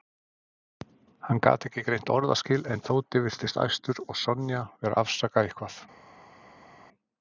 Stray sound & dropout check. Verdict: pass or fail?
pass